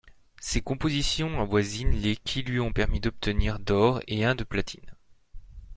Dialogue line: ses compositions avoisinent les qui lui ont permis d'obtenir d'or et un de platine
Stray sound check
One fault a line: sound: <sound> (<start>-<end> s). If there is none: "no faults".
no faults